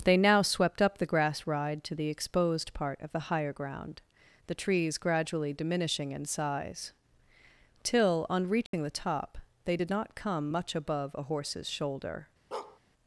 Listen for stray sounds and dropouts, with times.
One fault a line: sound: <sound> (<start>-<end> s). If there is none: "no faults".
sound: dropout (8.7-8.7 s)
sound: bark (12.5-12.8 s)